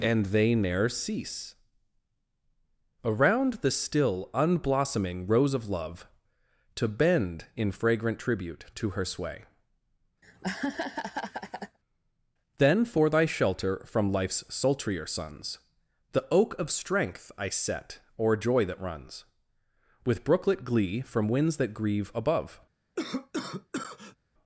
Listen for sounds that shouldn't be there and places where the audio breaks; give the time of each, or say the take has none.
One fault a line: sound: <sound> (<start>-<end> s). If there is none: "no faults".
sound: laugh (10.2-11.8 s)
sound: cough (23.0-24.2 s)